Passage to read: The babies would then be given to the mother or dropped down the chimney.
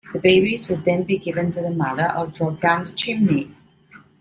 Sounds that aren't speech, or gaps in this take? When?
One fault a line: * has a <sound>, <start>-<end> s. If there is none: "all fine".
all fine